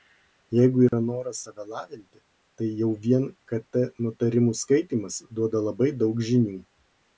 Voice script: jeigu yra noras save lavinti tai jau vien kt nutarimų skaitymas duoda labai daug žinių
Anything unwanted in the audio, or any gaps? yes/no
yes